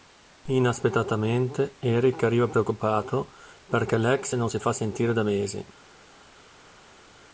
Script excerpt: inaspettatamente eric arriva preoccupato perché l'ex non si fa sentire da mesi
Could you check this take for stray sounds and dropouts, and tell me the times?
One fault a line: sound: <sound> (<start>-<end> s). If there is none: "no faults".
no faults